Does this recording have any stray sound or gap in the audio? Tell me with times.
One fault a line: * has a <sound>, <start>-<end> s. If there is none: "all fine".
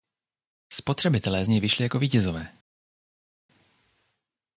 all fine